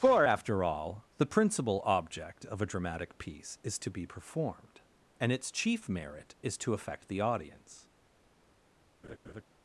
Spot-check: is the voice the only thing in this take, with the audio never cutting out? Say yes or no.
no